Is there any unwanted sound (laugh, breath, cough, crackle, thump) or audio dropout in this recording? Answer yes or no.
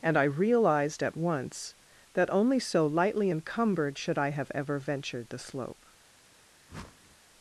yes